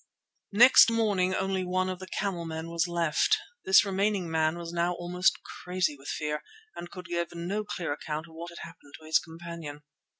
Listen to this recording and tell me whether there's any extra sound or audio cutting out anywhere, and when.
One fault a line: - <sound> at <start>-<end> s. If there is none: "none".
none